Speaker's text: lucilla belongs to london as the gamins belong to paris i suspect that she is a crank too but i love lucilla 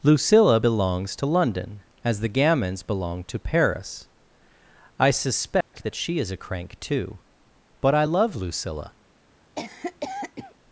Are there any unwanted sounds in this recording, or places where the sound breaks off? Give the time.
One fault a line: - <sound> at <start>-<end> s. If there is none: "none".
- dropout at 5.6-5.7 s
- cough at 9.5-10.5 s